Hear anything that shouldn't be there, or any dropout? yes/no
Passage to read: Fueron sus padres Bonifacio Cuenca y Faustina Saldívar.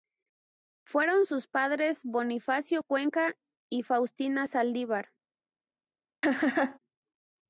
yes